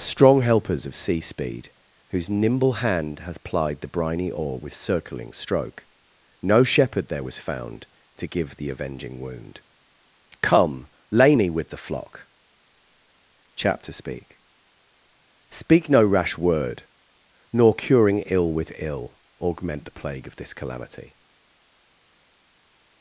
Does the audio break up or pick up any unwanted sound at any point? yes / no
no